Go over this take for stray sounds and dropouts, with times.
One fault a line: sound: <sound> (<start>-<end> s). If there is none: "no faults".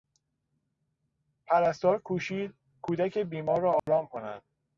sound: dropout (3.8-3.9 s)